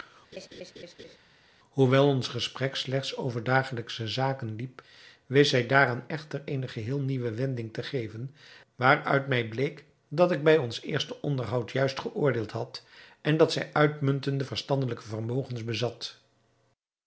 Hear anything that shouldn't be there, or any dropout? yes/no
yes